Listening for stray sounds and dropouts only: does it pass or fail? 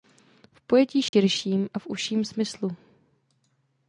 fail